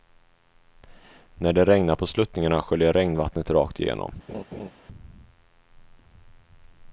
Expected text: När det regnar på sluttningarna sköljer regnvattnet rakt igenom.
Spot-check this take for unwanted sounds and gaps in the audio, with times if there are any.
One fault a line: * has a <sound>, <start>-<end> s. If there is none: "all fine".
* has a laugh, 4.3-4.7 s